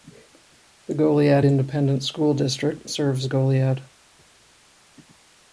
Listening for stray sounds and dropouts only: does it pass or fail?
pass